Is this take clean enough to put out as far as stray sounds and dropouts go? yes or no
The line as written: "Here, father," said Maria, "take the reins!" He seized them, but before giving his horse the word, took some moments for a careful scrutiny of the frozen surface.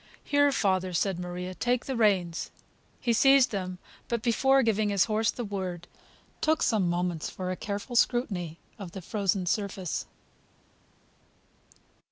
yes